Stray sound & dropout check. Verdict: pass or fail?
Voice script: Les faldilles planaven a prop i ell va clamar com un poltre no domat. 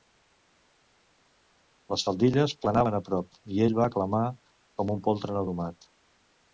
pass